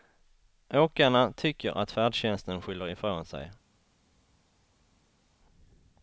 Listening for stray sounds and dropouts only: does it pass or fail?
pass